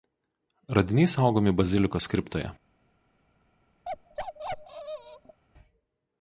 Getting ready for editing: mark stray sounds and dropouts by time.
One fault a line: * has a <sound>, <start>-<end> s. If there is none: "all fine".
* has a bark, 3.9-5.4 s